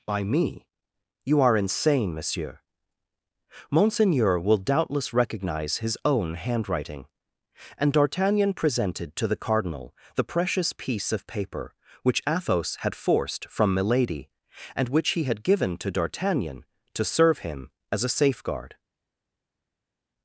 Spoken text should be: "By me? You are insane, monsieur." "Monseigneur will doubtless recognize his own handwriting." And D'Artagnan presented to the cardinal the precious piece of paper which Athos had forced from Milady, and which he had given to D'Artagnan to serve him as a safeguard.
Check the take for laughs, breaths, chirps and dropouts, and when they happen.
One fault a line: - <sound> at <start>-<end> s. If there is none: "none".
none